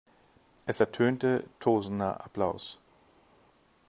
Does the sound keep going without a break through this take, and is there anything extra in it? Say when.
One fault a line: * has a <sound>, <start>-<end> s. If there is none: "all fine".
all fine